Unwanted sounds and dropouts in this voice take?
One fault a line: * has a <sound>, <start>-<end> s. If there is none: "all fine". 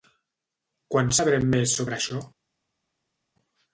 all fine